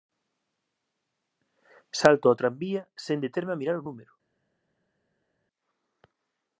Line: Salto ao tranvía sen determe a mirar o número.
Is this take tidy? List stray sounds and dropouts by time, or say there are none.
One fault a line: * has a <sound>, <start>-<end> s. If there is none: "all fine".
all fine